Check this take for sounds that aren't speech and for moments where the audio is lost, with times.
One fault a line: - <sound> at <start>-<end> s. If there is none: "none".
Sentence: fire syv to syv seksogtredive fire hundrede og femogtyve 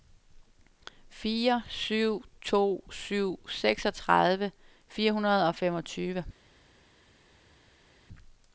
none